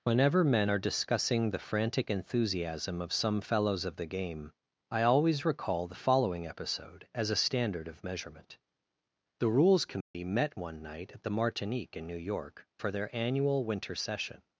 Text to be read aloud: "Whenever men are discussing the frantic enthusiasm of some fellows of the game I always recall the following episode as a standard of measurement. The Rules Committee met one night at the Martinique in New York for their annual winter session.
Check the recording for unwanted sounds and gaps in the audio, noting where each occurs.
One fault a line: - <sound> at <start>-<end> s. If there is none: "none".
- dropout at 10.0-10.1 s